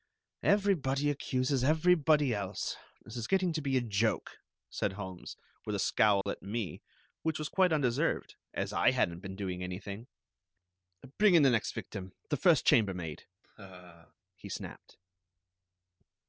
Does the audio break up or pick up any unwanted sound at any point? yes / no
yes